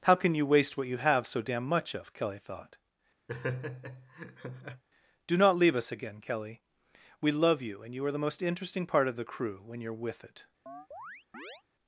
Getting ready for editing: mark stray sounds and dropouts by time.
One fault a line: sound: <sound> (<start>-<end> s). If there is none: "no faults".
sound: laugh (3.3-4.8 s)
sound: chirp (10.7-11.6 s)